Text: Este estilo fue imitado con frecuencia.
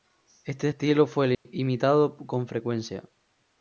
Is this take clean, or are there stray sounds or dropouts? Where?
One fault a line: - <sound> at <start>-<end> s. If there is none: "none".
- dropout at 1.3-1.5 s